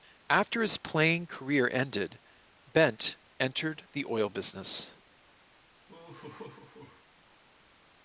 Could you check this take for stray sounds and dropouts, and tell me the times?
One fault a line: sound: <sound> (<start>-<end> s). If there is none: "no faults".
sound: laugh (5.9-7.0 s)